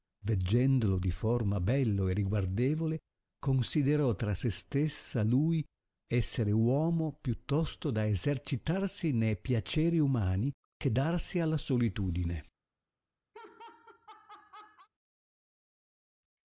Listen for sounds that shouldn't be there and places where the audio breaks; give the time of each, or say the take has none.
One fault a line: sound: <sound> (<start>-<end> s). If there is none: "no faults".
sound: laugh (13.3-14.9 s)